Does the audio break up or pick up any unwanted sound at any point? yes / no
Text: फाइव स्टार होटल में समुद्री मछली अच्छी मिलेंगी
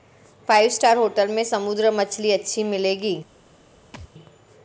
yes